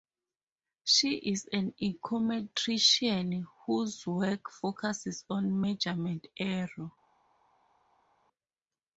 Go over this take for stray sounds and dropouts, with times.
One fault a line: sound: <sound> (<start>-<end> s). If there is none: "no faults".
no faults